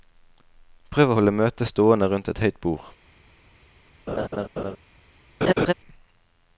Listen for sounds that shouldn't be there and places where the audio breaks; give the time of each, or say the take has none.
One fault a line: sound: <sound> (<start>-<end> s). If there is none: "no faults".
sound: laugh (4.1-4.8 s)
sound: laugh (5.4-5.7 s)